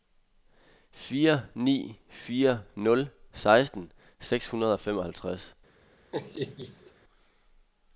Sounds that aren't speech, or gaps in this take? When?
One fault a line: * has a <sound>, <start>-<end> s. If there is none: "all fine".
* has a laugh, 6.1-6.9 s